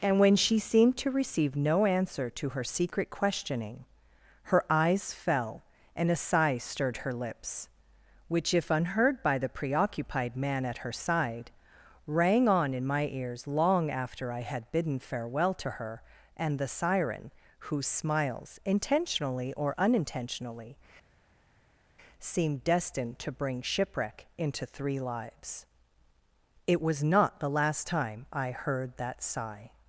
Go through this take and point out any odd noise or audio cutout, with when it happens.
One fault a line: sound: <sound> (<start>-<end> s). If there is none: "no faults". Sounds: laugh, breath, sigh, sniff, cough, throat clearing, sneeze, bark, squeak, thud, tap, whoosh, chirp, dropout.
no faults